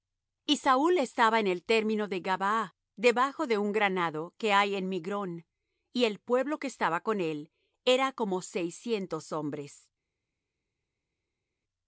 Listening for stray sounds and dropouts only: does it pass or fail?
pass